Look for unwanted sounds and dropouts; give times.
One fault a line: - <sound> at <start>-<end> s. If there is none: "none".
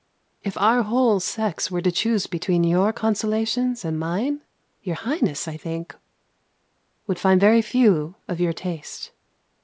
none